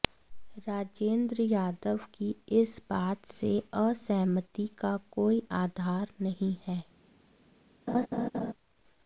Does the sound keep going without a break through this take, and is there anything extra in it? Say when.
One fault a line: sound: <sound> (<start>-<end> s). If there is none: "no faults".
sound: laugh (7.9-8.5 s)